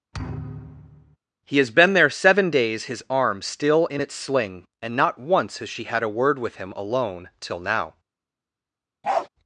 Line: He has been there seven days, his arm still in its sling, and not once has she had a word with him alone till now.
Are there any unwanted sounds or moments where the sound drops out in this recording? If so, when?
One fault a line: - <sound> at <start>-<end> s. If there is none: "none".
- thud at 0.1-1.2 s
- bark at 9.0-9.3 s